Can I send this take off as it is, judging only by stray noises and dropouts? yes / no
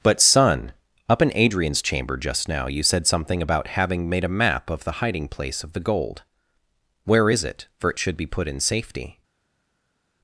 yes